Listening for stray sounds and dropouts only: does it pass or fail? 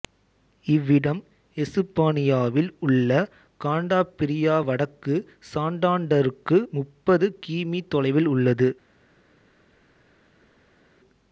pass